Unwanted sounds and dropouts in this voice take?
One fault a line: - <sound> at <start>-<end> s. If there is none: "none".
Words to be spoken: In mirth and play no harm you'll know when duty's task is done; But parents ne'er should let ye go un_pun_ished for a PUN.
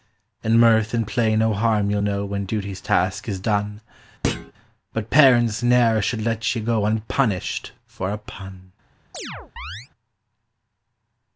- thud at 4.2-4.5 s
- chirp at 9.1-9.9 s